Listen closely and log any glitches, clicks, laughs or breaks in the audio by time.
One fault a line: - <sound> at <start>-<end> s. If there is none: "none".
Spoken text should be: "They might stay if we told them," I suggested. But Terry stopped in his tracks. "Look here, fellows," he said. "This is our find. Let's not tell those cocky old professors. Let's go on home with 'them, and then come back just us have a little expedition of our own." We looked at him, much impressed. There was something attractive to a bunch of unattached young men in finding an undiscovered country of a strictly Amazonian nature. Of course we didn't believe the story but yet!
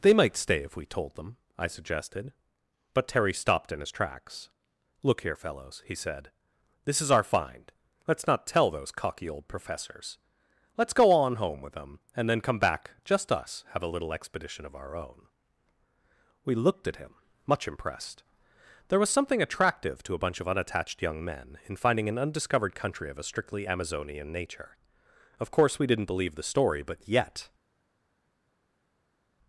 none